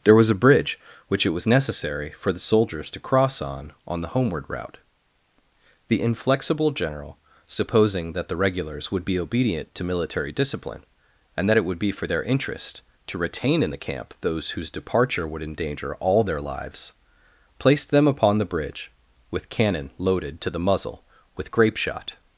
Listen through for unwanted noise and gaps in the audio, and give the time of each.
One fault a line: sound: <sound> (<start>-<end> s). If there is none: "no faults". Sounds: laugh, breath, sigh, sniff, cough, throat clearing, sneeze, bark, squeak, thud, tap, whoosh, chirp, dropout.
no faults